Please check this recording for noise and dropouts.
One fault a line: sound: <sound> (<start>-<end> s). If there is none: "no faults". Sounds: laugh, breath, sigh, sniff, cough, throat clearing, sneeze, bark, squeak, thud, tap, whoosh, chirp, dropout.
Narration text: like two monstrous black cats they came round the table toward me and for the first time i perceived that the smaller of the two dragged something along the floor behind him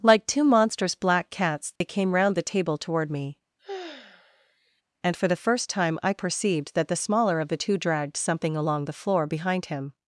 sound: dropout (1.8-1.8 s)
sound: sigh (3.6-4.8 s)